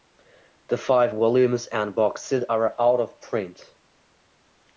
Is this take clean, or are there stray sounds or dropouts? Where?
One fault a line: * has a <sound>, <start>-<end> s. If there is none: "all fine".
all fine